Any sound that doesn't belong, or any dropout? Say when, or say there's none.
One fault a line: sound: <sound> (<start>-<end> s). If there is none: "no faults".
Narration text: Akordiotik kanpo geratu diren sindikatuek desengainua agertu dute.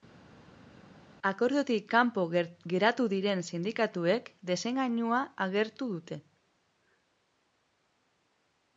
no faults